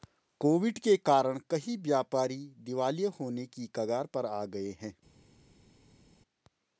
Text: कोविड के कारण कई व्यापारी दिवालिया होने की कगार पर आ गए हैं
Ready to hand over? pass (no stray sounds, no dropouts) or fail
pass